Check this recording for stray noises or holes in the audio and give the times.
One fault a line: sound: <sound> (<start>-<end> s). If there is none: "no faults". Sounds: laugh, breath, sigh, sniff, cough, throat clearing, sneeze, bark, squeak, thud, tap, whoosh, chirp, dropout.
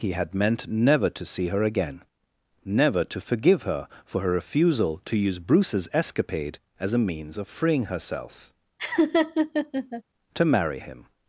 sound: laugh (8.8-10.0 s)